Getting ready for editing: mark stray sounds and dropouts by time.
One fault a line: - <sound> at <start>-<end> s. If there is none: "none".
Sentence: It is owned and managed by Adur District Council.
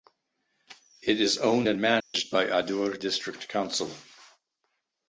- dropout at 2.0-2.1 s